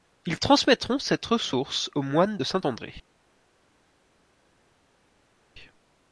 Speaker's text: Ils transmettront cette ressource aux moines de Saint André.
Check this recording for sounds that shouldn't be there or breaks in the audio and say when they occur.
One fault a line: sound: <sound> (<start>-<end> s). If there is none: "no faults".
no faults